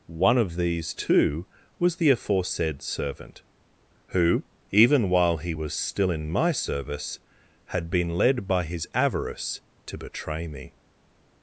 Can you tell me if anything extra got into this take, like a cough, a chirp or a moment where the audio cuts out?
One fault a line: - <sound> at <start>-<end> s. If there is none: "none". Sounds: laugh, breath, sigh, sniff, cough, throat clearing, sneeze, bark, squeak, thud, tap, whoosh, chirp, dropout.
none